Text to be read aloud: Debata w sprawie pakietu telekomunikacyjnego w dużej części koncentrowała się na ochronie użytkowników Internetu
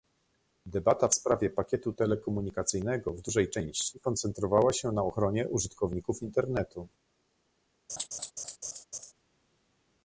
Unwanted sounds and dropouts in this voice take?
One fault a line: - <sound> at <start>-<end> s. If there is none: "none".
- laugh at 7.9-9.1 s